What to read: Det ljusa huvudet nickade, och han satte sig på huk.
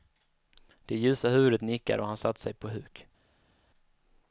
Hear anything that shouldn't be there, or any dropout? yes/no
no